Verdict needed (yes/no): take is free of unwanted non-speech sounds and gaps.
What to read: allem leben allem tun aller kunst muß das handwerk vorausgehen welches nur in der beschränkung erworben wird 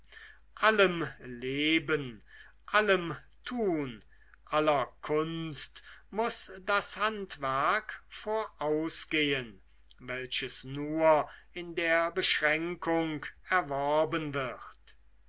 yes